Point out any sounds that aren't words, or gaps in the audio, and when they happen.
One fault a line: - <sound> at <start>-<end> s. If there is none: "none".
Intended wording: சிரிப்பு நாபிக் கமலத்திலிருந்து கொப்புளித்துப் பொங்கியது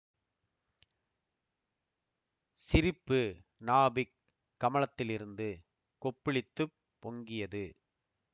none